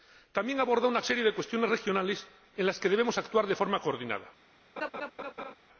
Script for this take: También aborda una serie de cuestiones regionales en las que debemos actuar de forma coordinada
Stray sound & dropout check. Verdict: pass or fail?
fail